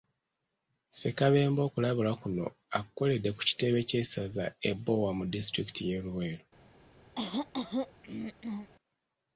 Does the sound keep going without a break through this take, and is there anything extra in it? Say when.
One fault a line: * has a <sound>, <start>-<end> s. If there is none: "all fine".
* has a throat clearing, 7.1-8.7 s